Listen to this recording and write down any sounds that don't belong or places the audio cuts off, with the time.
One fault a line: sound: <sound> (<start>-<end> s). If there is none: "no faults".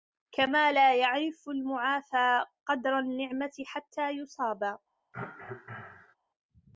sound: cough (5.1-6.2 s)